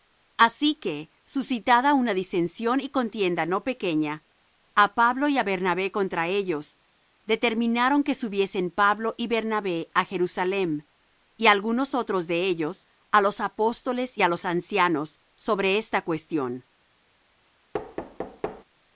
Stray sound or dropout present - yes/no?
yes